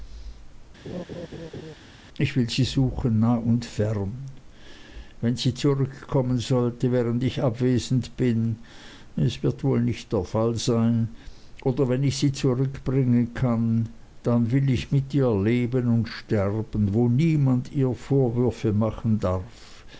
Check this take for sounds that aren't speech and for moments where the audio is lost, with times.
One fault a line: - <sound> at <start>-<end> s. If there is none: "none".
- laugh at 0.8-1.7 s